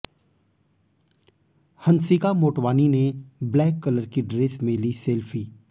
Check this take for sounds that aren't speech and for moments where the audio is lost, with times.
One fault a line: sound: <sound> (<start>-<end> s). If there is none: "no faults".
no faults